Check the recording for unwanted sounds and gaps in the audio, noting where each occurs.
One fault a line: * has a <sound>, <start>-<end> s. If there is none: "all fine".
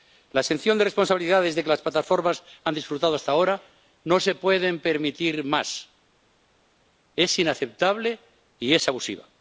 all fine